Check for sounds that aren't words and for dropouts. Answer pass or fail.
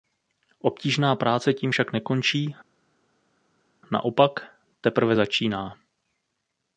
pass